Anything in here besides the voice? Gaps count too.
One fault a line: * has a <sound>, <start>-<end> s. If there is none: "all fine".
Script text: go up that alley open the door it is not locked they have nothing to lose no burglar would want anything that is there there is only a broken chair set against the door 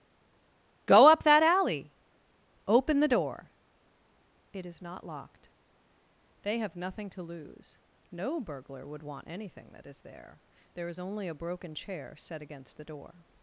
all fine